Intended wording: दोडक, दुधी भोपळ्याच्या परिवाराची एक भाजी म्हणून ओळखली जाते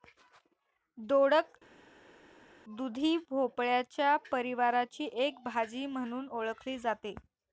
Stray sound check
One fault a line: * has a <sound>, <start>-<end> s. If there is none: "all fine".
all fine